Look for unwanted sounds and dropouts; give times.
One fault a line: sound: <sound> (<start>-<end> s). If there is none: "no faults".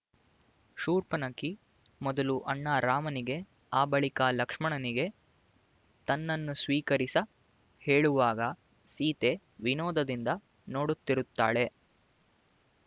no faults